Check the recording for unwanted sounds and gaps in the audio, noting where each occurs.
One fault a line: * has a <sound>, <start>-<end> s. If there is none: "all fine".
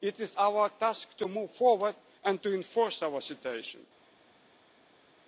all fine